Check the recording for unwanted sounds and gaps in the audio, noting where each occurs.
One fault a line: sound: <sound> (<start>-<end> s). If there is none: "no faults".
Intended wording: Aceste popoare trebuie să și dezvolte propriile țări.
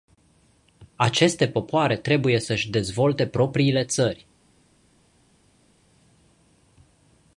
no faults